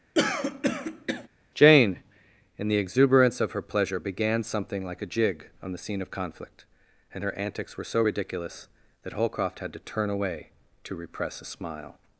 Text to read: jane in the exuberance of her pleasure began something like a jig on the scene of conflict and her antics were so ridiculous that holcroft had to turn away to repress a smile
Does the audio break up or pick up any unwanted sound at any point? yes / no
yes